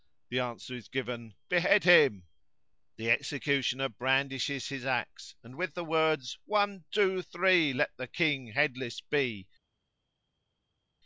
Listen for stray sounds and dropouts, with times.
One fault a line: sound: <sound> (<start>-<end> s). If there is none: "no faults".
no faults